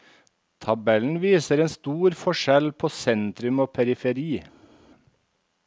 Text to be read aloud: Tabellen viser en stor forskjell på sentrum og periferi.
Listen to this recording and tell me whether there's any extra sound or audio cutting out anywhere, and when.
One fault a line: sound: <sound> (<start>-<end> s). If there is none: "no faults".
no faults